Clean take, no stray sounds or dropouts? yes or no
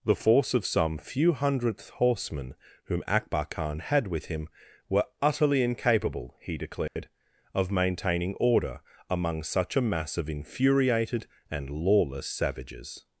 no